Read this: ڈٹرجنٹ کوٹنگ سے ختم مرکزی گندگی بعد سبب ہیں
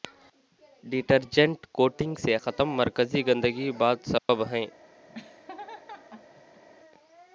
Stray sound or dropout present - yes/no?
yes